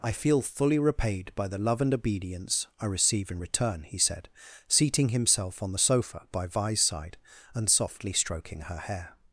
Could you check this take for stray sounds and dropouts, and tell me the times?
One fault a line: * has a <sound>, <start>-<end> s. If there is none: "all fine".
all fine